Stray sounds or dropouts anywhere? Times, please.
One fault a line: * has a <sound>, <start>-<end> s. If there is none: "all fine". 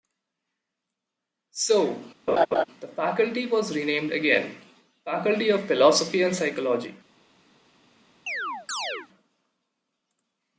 * has a laugh, 2.3-2.6 s
* has a chirp, 8.3-9.1 s